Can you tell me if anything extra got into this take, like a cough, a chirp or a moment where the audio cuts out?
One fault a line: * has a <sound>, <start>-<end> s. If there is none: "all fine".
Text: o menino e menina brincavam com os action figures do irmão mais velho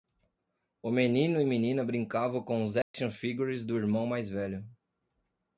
* has a dropout, 2.8-2.9 s